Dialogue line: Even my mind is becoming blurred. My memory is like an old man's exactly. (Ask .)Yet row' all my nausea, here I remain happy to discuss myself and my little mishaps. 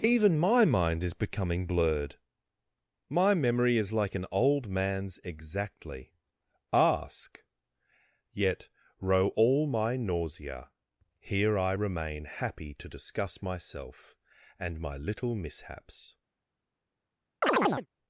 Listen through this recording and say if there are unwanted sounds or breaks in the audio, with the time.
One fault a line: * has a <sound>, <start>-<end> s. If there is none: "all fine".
* has a chirp, 17.4-17.9 s